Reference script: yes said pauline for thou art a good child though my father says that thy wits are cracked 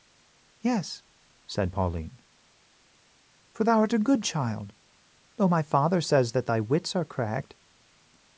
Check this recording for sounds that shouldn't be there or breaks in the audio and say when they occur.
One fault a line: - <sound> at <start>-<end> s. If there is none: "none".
none